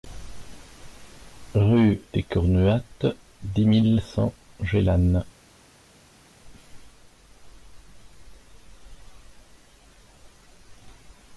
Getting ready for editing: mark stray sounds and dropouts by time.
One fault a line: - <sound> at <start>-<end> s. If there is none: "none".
none